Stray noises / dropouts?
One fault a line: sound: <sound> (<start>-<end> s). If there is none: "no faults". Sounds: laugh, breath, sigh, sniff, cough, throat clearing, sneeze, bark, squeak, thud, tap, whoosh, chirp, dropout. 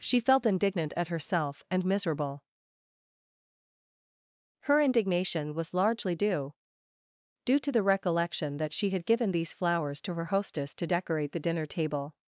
no faults